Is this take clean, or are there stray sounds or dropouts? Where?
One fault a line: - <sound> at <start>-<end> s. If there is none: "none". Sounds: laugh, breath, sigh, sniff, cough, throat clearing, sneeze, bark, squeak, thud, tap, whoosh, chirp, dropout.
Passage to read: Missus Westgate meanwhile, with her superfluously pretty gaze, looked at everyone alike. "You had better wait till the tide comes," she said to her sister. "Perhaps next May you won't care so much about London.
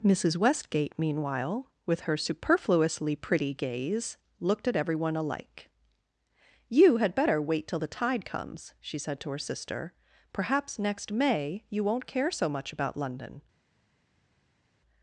none